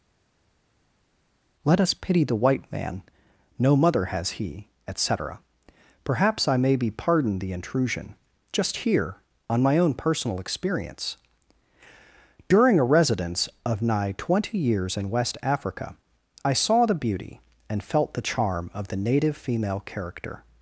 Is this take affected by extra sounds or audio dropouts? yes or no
no